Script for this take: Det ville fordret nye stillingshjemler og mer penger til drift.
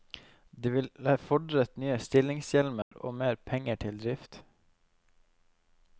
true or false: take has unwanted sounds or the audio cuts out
true